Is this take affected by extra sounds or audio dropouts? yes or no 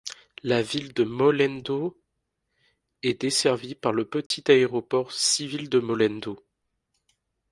yes